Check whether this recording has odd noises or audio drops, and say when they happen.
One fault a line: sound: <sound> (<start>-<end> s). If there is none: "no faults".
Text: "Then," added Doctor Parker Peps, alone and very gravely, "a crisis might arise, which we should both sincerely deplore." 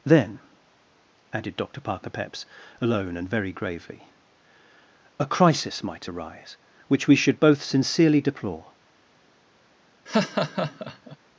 sound: laugh (10.1-11.2 s)